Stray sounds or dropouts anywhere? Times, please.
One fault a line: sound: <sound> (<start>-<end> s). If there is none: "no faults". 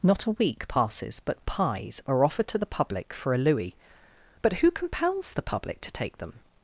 no faults